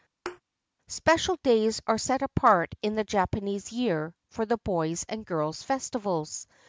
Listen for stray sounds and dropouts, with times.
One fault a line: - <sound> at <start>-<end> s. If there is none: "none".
- thud at 0.3-0.4 s